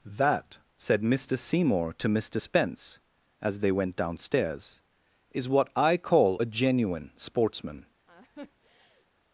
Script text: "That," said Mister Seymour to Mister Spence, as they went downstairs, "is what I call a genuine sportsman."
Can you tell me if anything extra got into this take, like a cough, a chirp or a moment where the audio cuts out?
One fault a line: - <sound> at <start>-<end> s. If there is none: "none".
- laugh at 8.1-9.1 s